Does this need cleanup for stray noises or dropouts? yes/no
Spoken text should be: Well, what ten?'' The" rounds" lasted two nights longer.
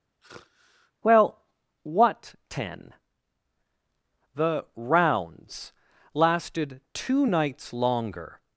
yes